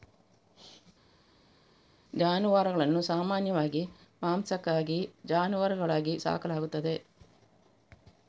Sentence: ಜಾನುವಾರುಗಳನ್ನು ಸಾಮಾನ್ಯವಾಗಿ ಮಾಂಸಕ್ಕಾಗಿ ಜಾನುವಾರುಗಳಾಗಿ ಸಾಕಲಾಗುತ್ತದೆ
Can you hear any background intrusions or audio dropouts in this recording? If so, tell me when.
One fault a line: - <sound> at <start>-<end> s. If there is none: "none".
none